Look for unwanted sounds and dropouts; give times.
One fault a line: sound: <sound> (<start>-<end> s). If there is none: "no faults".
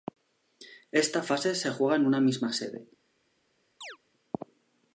sound: chirp (3.8-4.0 s)